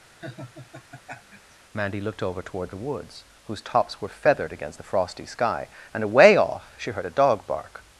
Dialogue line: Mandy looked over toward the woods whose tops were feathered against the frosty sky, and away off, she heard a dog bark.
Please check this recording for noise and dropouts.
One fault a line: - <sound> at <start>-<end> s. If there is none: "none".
- laugh at 0.2-1.6 s